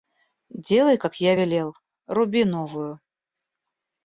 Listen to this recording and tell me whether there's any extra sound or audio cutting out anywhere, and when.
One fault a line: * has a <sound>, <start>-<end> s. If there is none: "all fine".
all fine